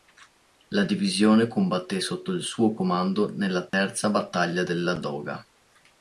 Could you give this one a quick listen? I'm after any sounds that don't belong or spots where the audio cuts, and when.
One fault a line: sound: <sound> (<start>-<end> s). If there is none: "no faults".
sound: dropout (3.7-3.7 s)